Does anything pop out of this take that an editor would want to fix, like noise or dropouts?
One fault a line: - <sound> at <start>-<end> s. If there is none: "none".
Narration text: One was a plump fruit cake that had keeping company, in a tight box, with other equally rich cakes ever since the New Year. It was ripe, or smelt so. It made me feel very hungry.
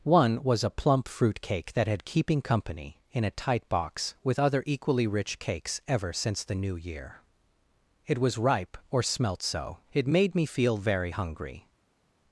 none